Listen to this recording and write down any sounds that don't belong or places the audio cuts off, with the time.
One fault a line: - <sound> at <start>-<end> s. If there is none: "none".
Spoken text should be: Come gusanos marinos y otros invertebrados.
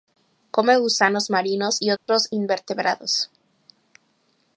- dropout at 2.0-2.1 s